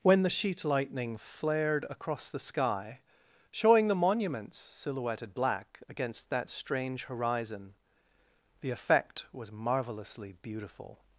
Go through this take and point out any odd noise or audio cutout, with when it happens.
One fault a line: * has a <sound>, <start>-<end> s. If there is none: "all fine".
all fine